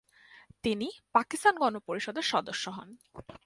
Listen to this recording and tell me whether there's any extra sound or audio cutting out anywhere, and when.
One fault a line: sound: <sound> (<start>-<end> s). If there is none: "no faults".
no faults